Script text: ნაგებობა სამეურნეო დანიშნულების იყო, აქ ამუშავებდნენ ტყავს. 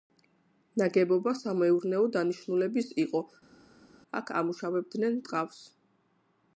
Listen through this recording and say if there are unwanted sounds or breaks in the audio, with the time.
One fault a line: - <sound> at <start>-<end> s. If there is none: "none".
none